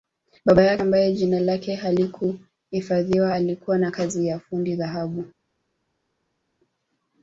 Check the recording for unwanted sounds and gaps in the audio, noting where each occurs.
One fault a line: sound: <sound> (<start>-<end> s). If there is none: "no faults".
no faults